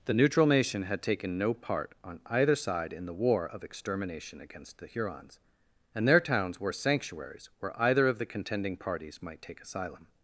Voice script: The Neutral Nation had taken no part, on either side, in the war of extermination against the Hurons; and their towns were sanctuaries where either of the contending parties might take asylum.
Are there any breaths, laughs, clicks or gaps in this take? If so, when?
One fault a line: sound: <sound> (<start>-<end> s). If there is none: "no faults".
no faults